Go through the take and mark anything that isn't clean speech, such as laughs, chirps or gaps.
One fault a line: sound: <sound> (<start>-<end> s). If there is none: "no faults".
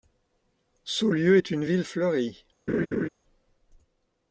sound: laugh (2.7-3.1 s)